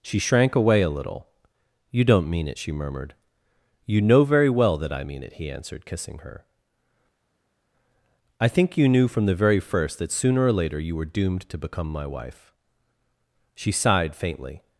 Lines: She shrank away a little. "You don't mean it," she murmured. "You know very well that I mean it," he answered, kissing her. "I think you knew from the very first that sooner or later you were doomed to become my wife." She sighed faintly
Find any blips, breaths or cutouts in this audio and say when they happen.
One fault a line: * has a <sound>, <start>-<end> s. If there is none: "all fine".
all fine